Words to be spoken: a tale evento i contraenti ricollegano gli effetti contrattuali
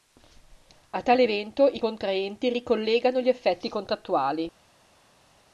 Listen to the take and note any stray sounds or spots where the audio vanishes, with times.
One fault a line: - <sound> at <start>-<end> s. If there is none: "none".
none